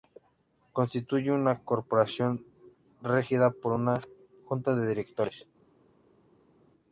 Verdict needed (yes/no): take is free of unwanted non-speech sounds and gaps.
yes